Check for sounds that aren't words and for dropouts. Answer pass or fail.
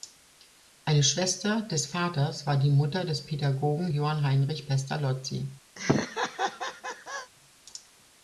fail